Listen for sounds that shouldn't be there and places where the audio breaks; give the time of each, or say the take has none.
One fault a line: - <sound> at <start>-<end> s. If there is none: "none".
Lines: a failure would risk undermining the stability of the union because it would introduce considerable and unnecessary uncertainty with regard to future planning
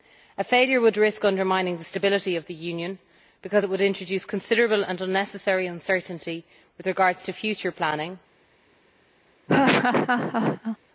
- laugh at 9.5-10.8 s